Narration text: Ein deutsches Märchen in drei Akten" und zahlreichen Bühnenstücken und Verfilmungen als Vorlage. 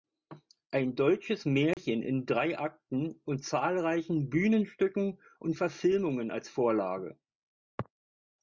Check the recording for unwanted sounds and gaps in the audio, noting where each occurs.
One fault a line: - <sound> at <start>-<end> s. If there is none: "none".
- dropout at 1.7-1.8 s